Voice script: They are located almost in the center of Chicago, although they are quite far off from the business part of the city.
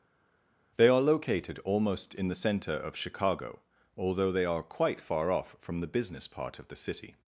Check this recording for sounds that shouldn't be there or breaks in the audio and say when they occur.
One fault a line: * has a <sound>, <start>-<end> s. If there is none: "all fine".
all fine